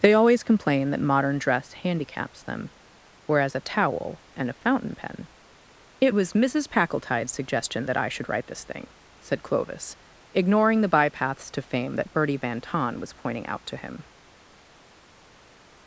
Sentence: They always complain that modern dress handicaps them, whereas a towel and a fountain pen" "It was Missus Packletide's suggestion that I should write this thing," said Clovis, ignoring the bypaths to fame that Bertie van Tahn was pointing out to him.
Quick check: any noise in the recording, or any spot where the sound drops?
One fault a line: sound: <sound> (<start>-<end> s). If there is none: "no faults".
no faults